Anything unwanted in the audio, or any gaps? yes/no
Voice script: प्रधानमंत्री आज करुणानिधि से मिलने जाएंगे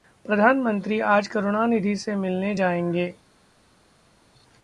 no